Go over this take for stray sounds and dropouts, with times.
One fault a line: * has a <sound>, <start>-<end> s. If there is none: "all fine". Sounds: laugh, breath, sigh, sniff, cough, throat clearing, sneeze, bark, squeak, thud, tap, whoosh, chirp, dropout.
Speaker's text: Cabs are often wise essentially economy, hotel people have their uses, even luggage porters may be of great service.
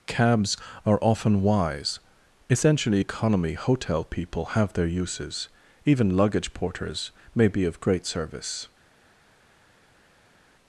all fine